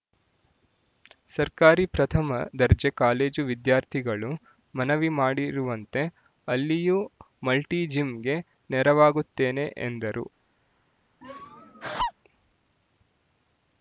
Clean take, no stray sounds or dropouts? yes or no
no